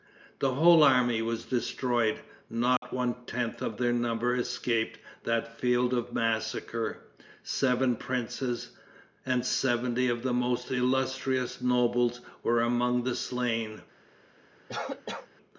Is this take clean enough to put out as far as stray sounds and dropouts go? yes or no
no